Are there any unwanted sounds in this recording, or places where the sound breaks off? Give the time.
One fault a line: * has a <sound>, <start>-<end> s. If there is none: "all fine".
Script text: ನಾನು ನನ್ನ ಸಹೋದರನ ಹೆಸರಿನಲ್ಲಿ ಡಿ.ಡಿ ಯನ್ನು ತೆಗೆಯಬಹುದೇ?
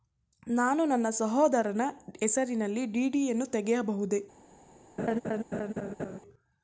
* has a laugh, 5.0-6.2 s